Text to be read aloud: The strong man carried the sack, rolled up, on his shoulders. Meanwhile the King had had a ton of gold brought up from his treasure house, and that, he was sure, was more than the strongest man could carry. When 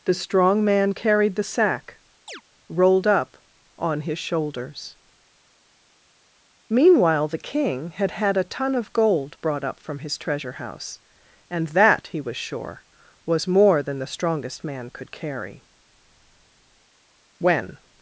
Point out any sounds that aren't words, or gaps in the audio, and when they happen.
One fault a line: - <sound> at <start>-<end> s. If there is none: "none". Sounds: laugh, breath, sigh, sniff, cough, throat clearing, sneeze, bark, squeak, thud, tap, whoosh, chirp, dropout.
- chirp at 2.3-2.4 s